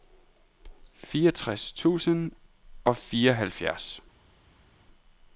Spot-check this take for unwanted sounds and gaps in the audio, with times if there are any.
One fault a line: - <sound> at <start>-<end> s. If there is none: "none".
none